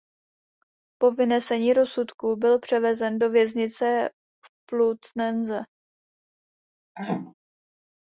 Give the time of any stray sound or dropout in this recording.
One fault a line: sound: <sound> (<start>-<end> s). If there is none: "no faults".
sound: throat clearing (7.0-7.3 s)